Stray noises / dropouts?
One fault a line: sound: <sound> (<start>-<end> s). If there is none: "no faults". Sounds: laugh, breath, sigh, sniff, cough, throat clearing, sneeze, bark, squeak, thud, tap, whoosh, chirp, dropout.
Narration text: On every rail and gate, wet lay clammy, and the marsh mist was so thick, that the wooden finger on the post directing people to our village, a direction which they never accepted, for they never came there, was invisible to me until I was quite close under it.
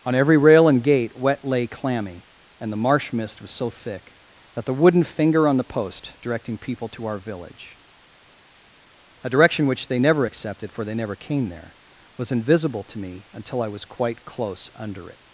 no faults